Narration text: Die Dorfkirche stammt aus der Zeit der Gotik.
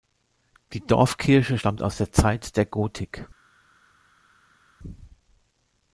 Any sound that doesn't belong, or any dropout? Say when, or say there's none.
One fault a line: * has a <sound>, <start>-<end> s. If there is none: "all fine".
all fine